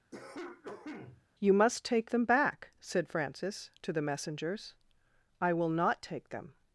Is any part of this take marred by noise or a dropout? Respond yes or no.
yes